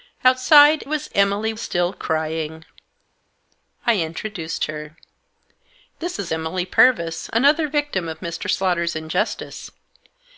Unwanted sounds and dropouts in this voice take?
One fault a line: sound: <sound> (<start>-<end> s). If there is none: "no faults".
no faults